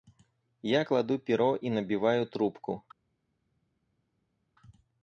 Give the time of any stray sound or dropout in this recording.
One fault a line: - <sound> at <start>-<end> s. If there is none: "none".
none